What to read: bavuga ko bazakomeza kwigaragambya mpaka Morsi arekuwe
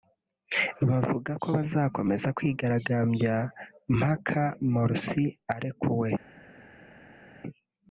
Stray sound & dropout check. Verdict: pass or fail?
pass